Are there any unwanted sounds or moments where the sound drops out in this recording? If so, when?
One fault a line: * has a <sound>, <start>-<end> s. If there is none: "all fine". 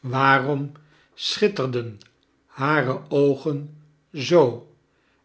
all fine